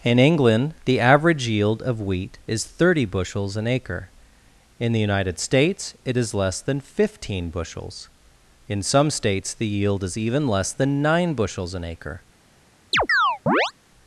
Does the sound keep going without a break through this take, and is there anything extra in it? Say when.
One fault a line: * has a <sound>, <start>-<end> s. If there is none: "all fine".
* has a chirp, 12.9-13.7 s